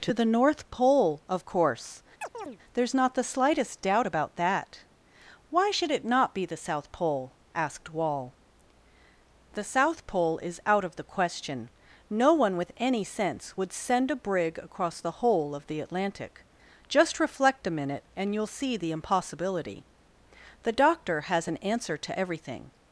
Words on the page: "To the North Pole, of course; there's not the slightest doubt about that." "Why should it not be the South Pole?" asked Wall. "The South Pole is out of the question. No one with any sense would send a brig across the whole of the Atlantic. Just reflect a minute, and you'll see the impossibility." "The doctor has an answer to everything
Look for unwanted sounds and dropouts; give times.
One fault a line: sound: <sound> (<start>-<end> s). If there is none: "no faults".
sound: chirp (2.2-2.6 s)